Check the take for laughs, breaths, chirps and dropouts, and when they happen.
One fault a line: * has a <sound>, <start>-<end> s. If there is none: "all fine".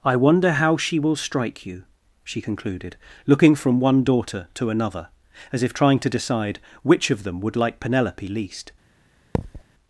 * has a thud, 9.3-9.6 s